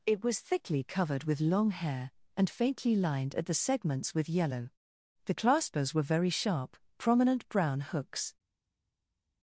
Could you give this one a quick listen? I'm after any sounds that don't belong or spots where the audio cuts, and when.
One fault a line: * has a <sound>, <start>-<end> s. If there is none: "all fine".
all fine